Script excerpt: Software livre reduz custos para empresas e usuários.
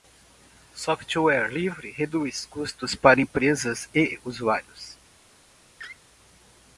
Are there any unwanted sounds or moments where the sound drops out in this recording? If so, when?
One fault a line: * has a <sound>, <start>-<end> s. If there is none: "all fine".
* has a laugh, 5.8-6.0 s